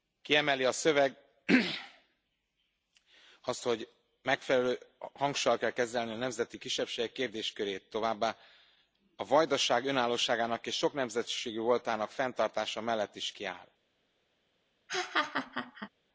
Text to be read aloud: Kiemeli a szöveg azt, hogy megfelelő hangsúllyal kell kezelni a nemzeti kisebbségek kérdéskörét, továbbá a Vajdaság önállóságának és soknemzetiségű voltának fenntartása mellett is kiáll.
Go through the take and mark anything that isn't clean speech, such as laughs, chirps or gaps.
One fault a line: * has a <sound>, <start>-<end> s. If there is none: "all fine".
* has a laugh, 14.9-15.9 s